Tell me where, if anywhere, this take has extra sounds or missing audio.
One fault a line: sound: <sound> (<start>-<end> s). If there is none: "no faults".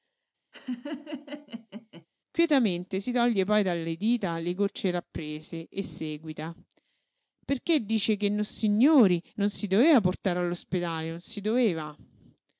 sound: laugh (0.5-2.1 s)